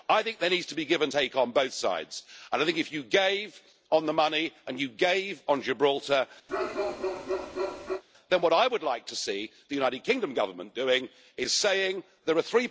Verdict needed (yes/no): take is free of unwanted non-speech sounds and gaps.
no